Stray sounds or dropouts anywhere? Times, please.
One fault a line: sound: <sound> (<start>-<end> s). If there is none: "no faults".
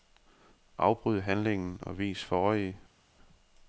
no faults